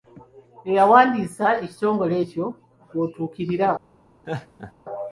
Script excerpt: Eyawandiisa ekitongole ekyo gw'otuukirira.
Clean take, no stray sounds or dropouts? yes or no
no